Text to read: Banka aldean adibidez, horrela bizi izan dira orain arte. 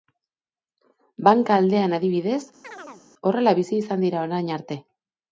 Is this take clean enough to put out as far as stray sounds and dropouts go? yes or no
no